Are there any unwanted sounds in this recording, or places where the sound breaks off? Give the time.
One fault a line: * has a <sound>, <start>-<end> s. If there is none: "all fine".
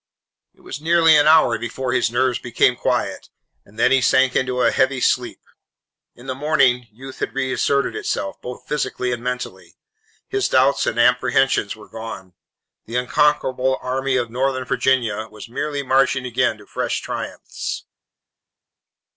all fine